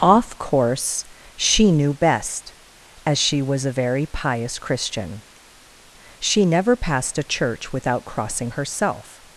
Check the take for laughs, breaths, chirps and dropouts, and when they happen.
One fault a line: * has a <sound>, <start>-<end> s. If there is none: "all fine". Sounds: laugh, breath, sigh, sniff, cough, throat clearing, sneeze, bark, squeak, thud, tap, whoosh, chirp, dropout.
all fine